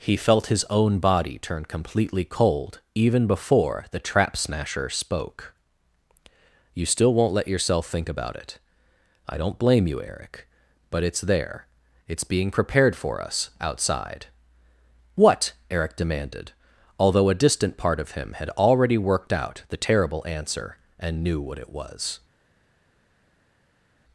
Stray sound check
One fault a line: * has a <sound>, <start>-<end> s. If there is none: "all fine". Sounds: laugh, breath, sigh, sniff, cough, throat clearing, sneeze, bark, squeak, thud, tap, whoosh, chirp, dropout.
all fine